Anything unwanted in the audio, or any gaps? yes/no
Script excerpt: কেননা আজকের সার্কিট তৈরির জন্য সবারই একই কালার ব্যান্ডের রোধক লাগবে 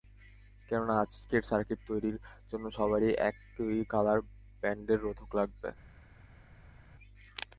no